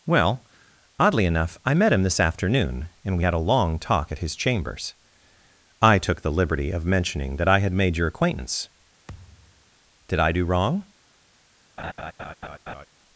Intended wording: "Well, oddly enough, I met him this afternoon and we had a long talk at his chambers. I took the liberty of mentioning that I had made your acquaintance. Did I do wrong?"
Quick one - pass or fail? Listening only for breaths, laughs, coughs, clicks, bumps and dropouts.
fail